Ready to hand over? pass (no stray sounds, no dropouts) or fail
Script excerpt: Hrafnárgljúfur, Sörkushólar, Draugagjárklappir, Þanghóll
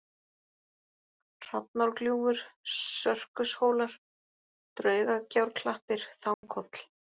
fail